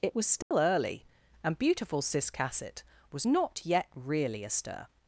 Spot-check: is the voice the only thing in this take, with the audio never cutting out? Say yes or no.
no